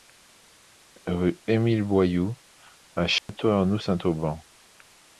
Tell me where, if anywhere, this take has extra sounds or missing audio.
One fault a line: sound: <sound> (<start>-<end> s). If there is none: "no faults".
sound: dropout (3.2-3.3 s)